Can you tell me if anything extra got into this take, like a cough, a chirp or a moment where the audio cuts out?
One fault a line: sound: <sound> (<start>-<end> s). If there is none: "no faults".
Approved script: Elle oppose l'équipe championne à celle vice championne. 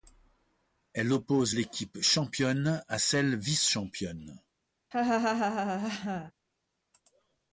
sound: laugh (4.9-6.3 s)